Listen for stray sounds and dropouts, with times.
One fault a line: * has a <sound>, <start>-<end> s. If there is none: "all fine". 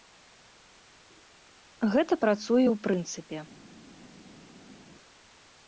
all fine